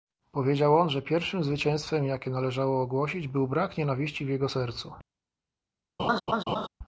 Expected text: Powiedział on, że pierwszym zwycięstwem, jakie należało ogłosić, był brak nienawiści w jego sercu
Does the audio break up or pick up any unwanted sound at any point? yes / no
yes